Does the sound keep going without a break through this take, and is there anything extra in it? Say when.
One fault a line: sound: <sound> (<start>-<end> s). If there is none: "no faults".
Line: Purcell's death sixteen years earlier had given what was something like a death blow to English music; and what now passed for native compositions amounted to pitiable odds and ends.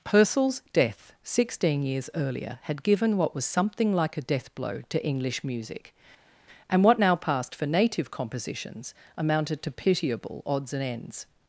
no faults